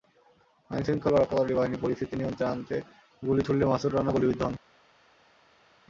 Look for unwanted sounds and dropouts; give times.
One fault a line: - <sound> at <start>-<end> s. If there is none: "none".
none